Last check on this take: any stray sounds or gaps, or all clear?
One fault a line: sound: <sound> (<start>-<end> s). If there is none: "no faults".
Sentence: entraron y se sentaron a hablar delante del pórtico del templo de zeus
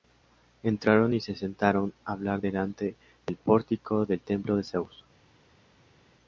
no faults